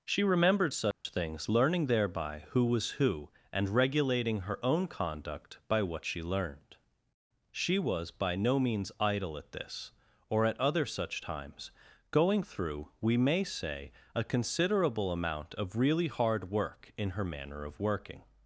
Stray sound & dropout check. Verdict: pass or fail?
fail